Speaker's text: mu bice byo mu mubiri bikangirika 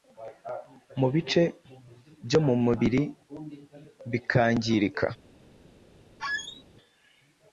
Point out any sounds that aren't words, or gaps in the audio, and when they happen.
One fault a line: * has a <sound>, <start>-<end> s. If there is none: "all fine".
* has a squeak, 6.2-6.6 s